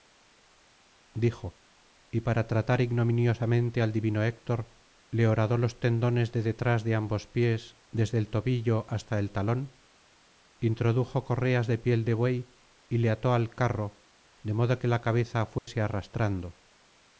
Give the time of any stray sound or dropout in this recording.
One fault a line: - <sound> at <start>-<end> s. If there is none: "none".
- dropout at 15.6-15.7 s